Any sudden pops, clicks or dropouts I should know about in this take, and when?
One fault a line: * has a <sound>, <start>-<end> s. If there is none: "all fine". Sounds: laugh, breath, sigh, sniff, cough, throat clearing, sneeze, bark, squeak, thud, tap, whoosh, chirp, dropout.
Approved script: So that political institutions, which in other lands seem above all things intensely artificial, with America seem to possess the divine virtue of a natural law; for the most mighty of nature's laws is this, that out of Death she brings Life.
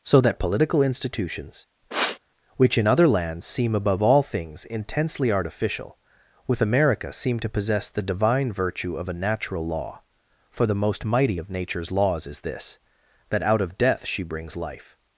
* has a sniff, 1.9-2.2 s